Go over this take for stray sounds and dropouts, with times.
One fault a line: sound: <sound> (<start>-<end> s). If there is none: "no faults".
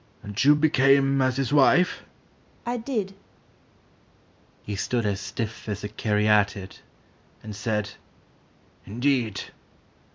no faults